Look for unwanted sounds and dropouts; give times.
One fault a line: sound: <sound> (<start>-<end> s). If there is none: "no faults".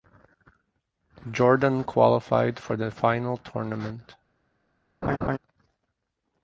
sound: laugh (5.0-5.4 s)